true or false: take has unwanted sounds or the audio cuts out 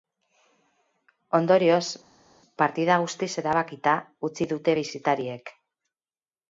false